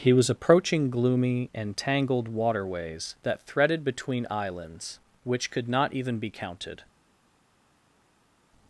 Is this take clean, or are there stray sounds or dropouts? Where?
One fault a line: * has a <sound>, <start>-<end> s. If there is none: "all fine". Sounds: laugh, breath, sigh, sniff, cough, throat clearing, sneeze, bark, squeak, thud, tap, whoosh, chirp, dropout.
all fine